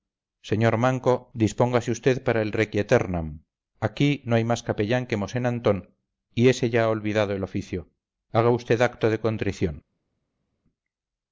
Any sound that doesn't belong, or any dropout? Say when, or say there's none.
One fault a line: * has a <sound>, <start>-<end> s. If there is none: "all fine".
all fine